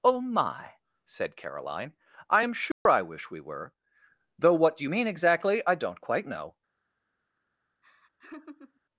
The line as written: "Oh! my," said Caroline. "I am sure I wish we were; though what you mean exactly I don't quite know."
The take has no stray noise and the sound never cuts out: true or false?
false